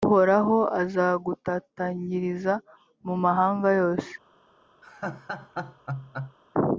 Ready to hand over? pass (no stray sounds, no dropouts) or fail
fail